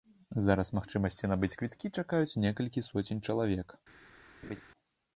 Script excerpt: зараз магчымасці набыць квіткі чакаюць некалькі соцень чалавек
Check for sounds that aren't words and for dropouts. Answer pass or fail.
fail